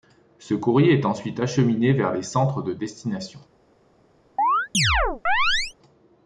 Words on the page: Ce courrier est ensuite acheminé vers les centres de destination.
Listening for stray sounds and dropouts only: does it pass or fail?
fail